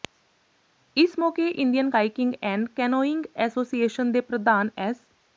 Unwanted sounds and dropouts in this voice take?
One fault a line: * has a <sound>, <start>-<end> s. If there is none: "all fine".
all fine